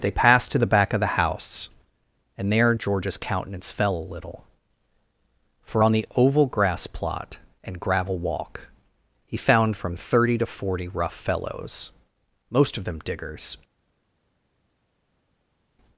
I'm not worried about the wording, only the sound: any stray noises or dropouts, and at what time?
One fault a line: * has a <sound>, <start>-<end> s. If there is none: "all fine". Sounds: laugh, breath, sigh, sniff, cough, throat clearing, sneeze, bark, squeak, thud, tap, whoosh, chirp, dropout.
all fine